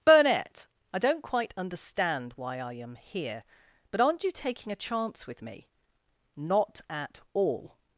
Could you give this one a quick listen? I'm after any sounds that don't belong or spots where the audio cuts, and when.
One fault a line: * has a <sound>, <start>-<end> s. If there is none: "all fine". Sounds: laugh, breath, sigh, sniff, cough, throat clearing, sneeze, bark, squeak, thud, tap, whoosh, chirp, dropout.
all fine